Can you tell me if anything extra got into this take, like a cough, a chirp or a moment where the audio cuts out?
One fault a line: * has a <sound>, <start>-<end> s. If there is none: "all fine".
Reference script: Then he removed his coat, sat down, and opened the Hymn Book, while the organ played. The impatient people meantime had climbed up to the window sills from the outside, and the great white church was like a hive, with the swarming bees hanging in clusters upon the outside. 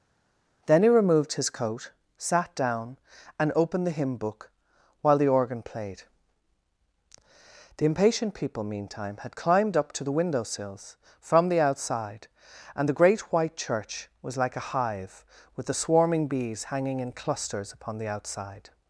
all fine